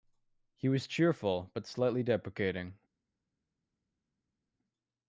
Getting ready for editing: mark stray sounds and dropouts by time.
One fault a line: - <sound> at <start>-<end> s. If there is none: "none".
none